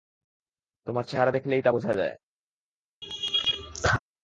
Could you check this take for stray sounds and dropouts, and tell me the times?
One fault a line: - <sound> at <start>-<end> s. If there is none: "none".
- laugh at 3.0-4.0 s